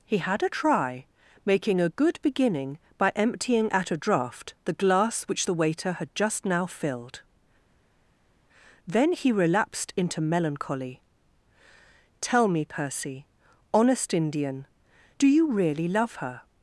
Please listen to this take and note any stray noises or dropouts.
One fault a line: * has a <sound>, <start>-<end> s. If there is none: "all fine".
all fine